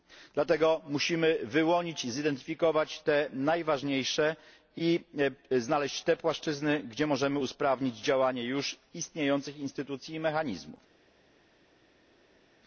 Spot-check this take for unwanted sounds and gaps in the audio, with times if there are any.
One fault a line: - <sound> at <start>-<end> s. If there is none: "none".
none